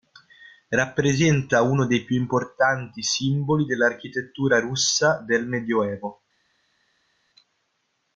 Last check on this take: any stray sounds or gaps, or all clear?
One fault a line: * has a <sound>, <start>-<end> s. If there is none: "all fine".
all fine